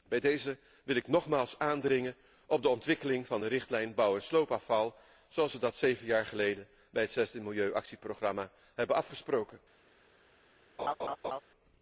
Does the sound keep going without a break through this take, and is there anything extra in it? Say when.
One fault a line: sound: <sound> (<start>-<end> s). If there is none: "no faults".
sound: laugh (10.8-11.4 s)